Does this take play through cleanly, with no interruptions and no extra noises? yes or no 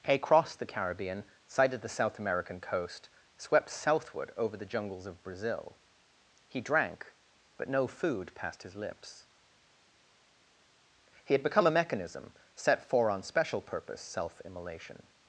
yes